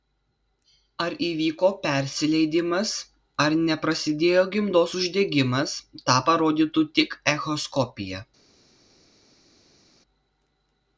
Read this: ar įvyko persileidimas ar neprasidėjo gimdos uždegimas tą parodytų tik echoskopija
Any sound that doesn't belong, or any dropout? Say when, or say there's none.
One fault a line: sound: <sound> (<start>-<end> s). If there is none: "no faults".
no faults